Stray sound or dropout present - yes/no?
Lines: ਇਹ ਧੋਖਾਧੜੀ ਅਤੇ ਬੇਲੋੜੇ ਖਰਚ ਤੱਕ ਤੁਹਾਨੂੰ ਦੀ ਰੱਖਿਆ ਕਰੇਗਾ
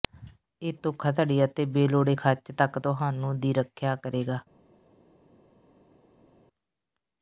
no